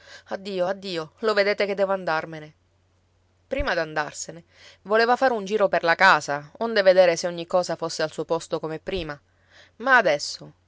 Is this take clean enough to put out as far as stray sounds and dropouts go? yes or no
yes